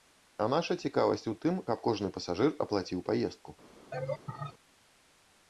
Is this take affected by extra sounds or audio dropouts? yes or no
yes